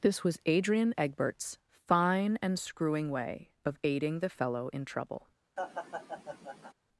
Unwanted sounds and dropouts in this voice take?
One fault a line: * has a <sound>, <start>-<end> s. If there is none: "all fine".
* has a laugh, 5.6-6.7 s